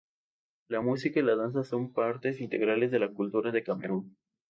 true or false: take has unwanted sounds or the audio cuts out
false